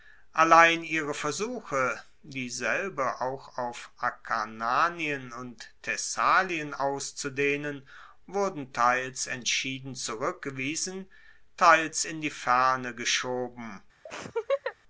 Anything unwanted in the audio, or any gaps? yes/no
yes